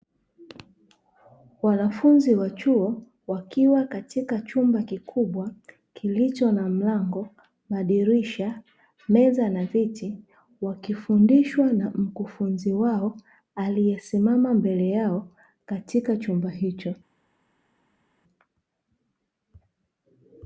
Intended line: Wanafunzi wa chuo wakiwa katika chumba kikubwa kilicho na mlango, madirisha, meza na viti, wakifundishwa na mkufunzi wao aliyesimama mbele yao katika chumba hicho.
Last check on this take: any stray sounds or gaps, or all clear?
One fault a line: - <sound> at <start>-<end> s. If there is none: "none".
none